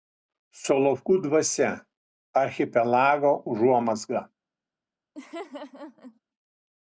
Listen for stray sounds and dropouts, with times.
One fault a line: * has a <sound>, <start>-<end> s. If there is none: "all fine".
* has a laugh, 5.2-6.2 s